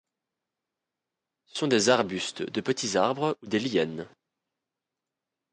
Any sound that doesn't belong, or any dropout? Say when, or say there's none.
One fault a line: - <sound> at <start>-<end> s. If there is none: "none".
none